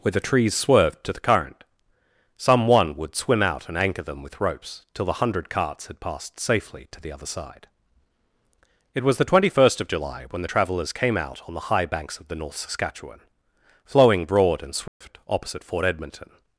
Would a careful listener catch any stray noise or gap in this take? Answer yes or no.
yes